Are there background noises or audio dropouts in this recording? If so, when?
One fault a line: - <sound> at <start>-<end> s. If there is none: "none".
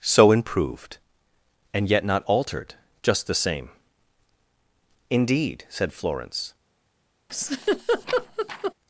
- laugh at 7.3-8.7 s